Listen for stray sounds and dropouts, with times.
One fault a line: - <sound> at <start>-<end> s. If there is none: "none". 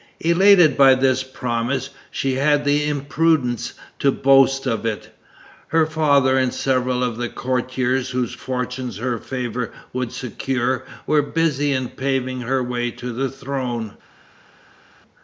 none